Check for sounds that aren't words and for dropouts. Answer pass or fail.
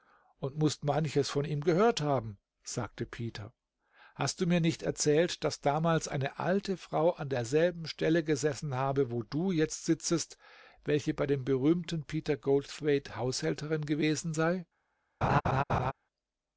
fail